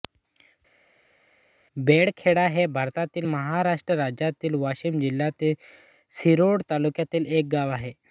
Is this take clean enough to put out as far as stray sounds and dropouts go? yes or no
yes